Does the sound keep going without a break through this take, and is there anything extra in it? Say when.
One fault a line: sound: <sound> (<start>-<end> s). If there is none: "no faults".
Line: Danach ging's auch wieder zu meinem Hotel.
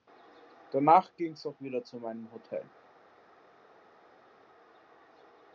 no faults